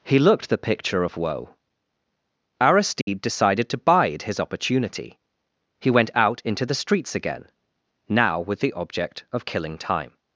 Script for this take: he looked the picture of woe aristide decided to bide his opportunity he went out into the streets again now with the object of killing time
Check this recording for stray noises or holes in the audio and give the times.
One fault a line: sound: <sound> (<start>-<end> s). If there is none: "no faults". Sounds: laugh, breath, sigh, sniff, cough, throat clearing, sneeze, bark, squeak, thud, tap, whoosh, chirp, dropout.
sound: dropout (3.0-3.1 s)